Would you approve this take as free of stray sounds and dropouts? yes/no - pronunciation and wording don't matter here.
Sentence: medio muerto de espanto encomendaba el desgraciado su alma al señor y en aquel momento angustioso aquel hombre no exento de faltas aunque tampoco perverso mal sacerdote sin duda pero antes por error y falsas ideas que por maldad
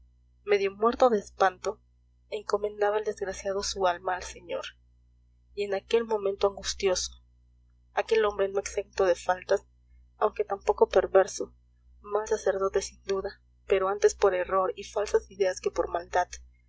yes